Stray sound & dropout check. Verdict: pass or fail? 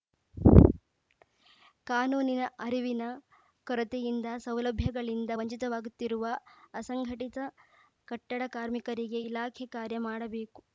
pass